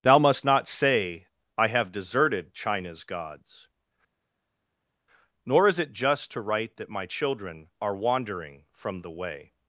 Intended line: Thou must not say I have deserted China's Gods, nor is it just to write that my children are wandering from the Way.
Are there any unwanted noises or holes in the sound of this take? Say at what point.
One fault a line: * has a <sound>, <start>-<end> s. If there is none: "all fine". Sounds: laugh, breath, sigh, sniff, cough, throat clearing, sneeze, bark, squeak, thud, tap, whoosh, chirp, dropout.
all fine